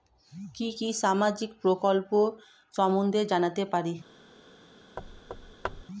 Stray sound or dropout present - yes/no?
yes